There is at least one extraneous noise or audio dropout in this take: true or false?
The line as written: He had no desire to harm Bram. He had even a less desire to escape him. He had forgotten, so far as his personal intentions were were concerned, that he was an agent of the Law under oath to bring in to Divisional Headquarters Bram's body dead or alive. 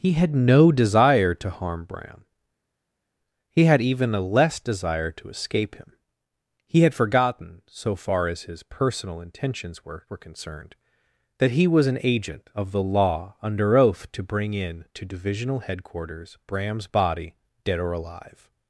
false